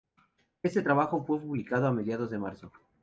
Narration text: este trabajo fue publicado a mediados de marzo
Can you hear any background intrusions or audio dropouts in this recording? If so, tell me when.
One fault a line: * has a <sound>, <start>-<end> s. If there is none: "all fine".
all fine